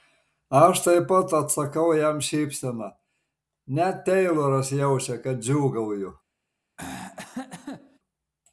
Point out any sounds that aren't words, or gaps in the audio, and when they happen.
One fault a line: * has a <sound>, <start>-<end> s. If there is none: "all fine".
* has a throat clearing, 6.8-8.0 s